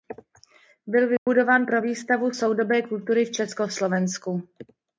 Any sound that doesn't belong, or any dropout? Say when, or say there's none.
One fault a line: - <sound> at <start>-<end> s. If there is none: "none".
- dropout at 1.2-1.3 s